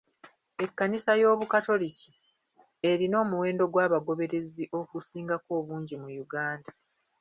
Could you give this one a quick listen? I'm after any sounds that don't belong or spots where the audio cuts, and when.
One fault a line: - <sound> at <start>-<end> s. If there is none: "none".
none